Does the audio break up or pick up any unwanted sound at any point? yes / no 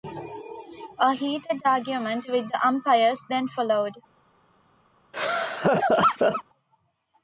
yes